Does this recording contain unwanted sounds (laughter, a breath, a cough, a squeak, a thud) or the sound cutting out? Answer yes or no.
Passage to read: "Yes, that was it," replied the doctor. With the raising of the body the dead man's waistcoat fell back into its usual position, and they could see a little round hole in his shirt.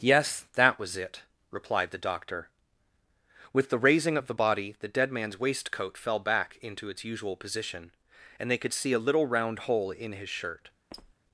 yes